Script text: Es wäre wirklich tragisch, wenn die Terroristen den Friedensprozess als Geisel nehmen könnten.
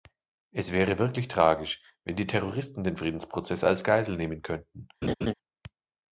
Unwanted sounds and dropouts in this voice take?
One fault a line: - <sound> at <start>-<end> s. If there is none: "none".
- laugh at 5.0-5.3 s